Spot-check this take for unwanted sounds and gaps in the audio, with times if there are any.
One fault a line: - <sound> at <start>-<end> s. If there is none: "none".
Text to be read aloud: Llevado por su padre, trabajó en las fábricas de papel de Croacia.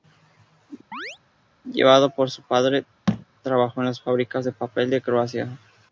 - chirp at 0.9-1.2 s
- thud at 3.1-3.3 s